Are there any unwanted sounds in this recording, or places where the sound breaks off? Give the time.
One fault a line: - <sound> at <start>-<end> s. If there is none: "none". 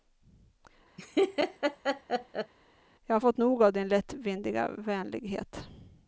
- laugh at 1.0-2.5 s